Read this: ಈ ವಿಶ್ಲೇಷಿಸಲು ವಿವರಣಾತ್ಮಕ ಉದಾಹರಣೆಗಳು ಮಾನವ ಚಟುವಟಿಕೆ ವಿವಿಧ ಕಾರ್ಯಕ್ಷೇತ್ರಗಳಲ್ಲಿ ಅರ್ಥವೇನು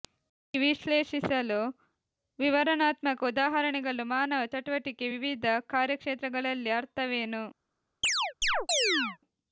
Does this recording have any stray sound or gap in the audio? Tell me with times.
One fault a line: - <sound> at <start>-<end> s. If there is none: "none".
- chirp at 8.0-9.2 s